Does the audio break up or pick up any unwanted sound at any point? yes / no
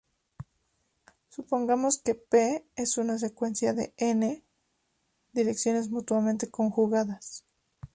no